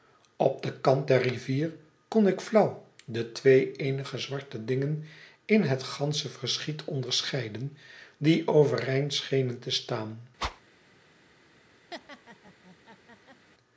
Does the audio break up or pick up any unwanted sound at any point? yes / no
yes